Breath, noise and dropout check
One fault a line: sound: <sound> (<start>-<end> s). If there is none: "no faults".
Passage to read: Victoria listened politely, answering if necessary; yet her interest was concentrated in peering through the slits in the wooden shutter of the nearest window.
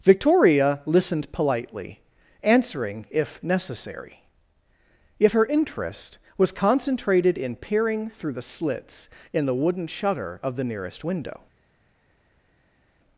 no faults